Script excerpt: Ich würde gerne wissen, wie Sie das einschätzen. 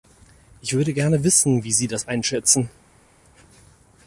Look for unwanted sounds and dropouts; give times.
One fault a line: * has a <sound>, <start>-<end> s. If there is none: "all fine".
all fine